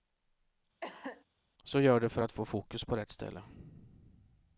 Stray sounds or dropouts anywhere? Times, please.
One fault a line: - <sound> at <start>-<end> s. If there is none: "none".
- cough at 0.8-1.3 s